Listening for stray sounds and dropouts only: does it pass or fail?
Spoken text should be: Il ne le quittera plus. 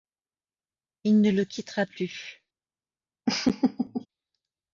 fail